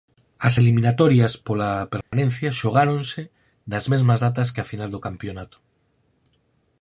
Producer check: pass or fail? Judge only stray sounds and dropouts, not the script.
fail